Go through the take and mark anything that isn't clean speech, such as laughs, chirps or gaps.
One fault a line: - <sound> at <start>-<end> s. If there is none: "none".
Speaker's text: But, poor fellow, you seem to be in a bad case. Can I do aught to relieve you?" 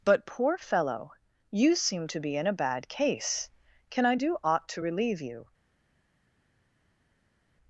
none